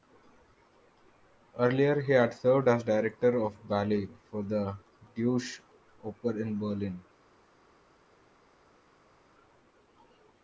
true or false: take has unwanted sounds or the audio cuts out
false